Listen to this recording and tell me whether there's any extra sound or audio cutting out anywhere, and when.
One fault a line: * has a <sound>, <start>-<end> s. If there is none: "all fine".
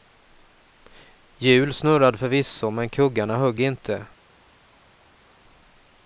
all fine